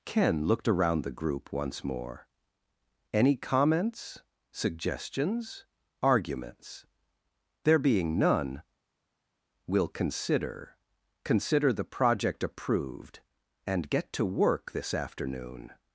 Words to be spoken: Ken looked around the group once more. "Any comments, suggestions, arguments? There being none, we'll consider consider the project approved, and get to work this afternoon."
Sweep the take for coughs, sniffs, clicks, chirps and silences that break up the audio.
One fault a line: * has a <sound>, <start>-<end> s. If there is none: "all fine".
all fine